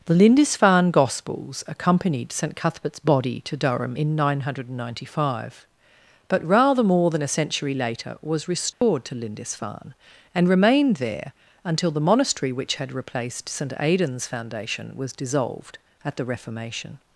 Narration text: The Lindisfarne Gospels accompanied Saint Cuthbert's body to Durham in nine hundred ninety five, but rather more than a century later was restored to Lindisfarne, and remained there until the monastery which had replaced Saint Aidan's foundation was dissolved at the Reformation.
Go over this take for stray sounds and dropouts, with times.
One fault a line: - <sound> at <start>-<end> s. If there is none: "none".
- dropout at 8.7-8.8 s